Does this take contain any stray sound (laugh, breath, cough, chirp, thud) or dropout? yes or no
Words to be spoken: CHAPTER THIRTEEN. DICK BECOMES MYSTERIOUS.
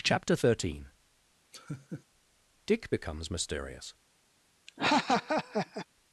yes